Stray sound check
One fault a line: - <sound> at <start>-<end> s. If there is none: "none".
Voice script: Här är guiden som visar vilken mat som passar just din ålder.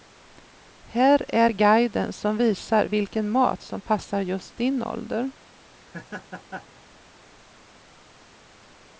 - laugh at 5.8-6.8 s